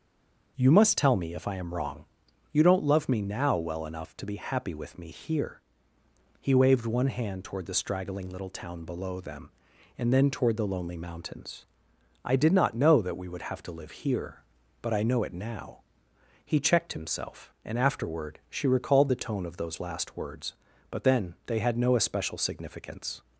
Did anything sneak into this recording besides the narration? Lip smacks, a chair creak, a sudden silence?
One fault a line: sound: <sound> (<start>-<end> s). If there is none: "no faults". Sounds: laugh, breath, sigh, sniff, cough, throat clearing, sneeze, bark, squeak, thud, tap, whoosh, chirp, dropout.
no faults